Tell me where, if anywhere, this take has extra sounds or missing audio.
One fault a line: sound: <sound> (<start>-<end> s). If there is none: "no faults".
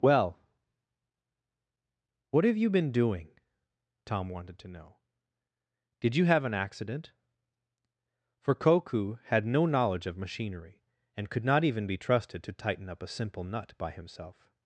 no faults